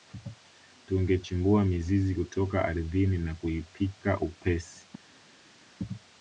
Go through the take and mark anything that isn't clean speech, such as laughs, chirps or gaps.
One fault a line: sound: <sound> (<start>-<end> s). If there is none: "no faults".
no faults